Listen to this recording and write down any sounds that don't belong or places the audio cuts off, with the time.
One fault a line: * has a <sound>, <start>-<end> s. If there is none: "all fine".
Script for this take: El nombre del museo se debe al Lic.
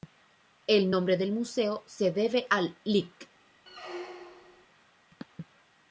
* has a squeak, 3.7-4.7 s